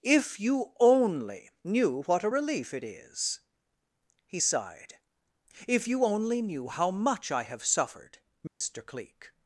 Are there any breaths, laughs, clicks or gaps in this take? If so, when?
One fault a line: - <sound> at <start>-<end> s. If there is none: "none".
- dropout at 8.5-8.6 s